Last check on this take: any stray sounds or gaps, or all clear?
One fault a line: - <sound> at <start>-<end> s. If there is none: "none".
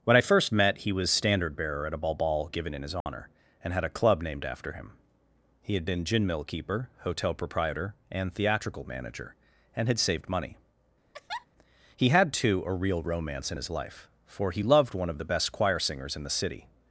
- dropout at 3.0-3.1 s
- laugh at 11.1-11.5 s